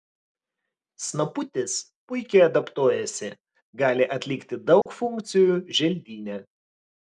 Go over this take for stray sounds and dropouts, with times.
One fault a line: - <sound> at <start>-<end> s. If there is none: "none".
- dropout at 4.8-4.9 s